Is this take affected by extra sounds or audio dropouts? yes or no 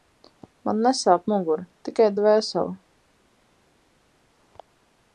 no